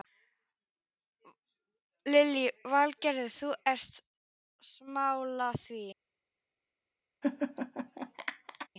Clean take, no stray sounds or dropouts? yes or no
no